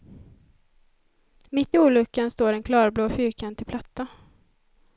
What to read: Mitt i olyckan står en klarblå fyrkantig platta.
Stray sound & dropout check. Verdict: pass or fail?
pass